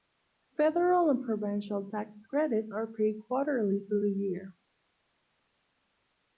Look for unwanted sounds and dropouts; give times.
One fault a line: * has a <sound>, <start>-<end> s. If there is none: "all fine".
all fine